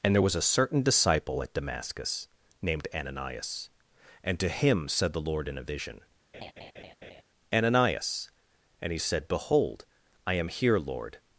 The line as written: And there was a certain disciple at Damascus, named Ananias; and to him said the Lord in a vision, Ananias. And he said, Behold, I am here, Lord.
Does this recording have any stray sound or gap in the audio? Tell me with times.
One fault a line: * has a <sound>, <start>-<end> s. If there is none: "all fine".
* has a laugh, 6.3-7.2 s